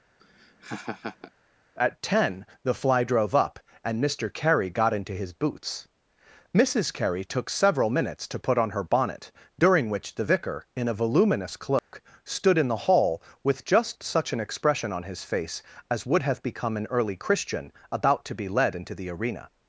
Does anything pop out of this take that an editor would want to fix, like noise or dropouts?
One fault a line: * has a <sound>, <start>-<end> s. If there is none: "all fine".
* has a laugh, 0.2-1.3 s
* has a dropout, 11.8-11.9 s